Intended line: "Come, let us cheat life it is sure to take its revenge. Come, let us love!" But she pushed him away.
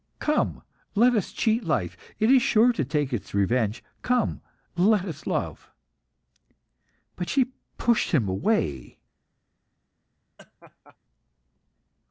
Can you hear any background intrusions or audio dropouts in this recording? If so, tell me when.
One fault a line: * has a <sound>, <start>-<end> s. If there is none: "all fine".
* has a laugh, 10.4-11.0 s